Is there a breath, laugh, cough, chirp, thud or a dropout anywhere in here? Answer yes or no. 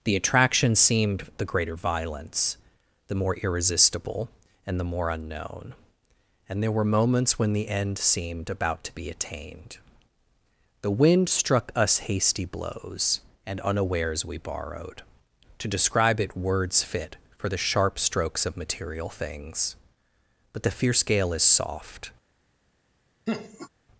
yes